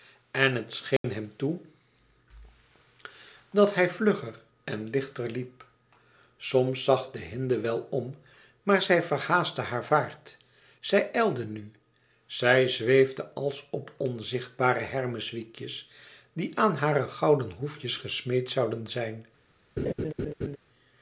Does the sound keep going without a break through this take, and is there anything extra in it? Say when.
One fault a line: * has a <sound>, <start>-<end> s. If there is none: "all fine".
* has a dropout, 1.0-1.0 s
* has a laugh, 19.8-20.6 s